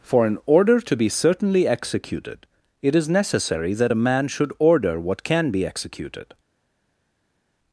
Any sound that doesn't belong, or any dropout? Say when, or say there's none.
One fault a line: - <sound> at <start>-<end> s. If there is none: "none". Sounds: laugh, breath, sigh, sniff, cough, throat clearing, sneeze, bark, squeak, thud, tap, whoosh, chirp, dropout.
none